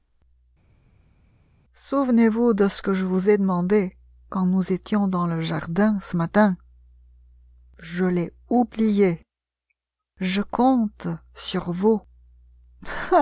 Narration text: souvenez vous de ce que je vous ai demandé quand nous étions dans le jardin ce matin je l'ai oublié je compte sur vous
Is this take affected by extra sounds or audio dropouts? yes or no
no